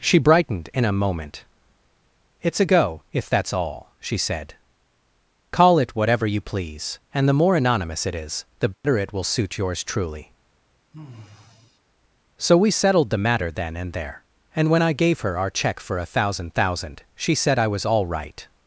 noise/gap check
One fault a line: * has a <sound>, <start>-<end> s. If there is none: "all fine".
* has a dropout, 8.7-8.8 s
* has a sigh, 10.9-11.8 s